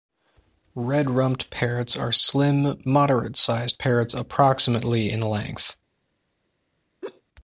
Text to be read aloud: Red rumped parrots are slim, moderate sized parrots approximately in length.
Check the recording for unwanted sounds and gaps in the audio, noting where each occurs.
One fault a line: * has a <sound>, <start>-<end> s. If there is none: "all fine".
* has a laugh, 7.0-7.2 s